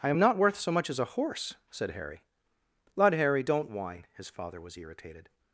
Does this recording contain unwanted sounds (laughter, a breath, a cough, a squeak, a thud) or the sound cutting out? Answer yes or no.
no